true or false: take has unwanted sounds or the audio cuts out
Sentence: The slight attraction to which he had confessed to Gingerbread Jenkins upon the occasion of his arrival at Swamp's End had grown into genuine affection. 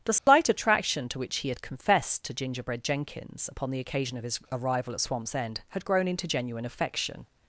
true